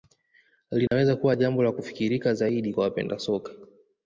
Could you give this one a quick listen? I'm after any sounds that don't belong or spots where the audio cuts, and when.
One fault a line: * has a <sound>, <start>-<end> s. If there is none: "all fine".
* has a dropout, 0.9-0.9 s